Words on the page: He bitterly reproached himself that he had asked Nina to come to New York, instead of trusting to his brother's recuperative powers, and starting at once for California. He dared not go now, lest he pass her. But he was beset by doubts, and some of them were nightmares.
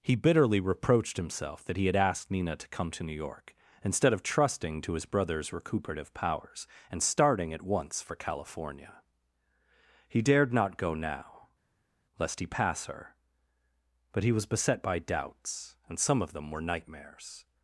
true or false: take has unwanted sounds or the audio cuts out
false